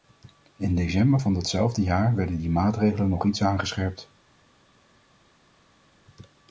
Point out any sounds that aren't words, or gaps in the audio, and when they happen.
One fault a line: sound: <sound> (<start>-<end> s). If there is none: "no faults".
no faults